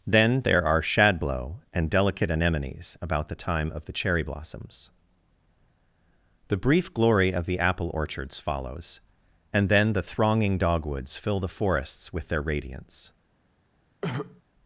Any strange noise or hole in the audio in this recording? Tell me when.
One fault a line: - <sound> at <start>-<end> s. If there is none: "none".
- throat clearing at 14.0-14.4 s